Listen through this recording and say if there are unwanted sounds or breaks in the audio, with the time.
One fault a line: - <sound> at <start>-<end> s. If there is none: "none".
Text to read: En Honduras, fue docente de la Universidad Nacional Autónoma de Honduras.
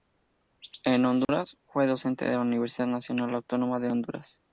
- dropout at 1.2-1.3 s